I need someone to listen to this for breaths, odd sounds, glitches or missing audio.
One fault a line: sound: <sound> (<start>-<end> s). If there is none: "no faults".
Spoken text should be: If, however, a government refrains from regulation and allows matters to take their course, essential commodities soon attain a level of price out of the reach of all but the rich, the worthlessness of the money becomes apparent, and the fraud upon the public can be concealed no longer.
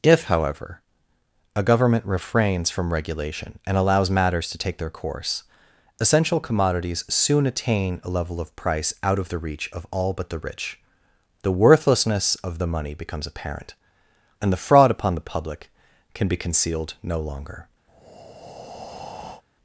sound: breath (17.9-19.4 s)